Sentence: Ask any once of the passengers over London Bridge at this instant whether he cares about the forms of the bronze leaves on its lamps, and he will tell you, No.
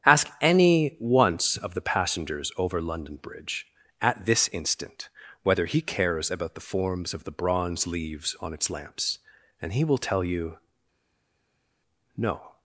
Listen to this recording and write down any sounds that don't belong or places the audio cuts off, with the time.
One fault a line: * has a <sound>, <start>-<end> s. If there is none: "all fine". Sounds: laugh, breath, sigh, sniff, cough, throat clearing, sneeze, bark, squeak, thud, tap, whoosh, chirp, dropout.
all fine